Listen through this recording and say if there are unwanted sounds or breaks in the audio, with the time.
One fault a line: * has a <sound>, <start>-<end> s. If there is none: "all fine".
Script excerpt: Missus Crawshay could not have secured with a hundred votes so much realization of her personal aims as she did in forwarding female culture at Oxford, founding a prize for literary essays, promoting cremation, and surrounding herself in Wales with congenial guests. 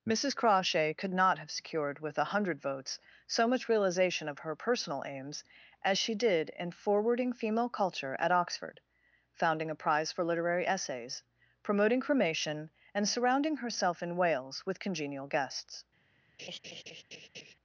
* has a laugh, 16.4-17.5 s